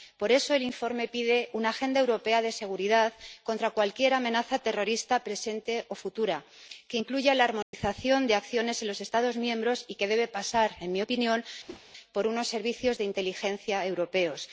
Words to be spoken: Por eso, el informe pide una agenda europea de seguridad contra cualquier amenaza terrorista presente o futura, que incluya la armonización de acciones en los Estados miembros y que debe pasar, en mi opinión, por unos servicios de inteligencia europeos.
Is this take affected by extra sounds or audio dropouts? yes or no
yes